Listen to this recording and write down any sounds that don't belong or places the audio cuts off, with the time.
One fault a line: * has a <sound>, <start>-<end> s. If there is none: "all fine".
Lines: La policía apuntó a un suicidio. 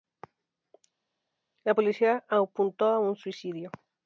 all fine